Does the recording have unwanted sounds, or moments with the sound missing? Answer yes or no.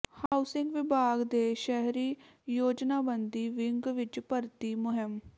yes